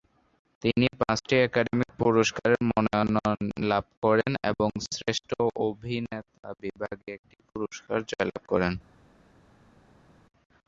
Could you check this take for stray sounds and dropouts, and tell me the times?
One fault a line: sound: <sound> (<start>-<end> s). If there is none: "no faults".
no faults